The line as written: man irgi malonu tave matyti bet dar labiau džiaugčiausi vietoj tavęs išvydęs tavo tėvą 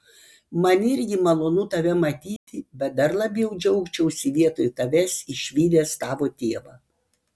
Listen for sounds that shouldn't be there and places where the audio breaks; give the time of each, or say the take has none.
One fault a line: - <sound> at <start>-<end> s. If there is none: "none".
- dropout at 2.4-2.5 s